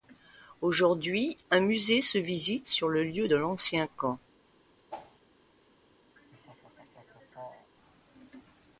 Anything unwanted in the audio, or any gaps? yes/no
yes